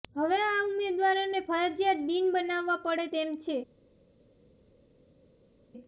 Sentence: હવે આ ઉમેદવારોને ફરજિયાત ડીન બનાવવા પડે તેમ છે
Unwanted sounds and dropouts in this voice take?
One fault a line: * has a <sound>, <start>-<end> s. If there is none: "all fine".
all fine